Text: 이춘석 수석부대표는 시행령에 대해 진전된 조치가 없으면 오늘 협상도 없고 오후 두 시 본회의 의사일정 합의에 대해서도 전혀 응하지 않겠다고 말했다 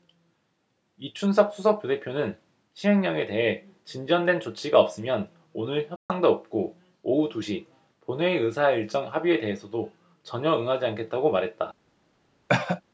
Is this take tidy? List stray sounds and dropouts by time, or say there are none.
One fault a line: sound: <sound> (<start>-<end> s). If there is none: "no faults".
sound: dropout (6.0-6.1 s)
sound: cough (12.5-12.8 s)